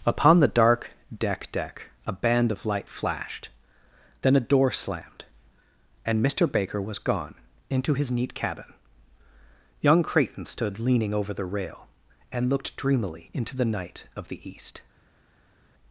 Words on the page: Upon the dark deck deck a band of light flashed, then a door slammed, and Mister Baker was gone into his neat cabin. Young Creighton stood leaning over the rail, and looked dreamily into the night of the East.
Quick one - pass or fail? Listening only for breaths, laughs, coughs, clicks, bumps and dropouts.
pass